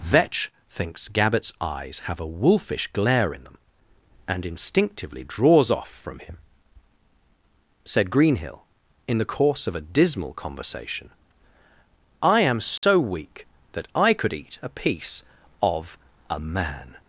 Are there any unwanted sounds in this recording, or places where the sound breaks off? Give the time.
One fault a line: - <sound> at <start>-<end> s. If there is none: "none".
- dropout at 12.8-12.8 s